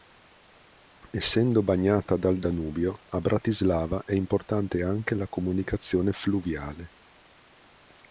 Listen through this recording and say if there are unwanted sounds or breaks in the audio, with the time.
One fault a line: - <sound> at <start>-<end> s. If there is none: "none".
none